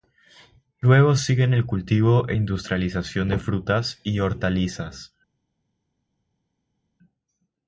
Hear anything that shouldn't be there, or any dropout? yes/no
no